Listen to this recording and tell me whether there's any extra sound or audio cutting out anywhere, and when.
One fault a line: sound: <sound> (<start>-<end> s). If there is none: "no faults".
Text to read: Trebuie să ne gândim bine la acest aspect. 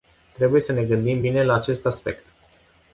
no faults